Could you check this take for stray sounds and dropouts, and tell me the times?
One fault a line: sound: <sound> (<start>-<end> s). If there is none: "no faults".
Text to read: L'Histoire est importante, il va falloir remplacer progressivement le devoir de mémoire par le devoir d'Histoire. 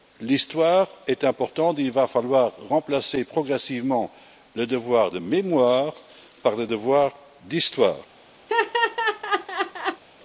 sound: laugh (8.5-10.0 s)